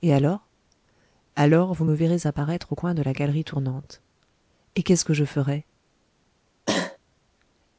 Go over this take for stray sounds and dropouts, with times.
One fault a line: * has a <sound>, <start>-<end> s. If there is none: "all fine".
* has a cough, 6.7-7.0 s